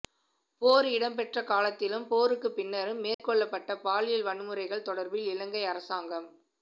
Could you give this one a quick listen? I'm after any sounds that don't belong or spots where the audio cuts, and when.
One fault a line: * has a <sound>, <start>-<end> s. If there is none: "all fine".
* has a dropout, 3.1-3.2 s